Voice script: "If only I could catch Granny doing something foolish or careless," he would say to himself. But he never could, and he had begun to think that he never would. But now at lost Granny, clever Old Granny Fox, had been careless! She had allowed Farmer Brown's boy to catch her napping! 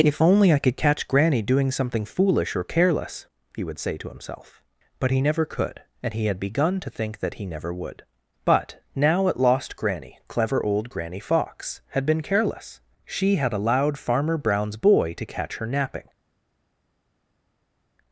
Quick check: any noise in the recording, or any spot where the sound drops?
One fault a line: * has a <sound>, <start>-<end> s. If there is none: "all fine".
all fine